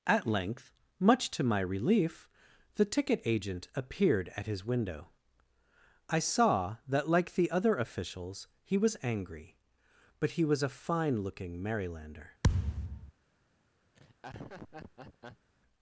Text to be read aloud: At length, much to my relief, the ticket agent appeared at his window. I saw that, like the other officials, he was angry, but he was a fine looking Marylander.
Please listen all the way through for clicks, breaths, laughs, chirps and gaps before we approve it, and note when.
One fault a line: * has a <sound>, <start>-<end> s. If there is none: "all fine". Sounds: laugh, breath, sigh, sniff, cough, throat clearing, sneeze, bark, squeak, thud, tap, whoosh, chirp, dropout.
* has a thud, 12.4-13.1 s
* has a laugh, 13.9-15.5 s